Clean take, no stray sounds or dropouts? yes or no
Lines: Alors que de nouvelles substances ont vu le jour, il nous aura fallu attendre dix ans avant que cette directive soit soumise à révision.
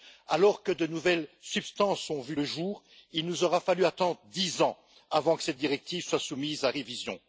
yes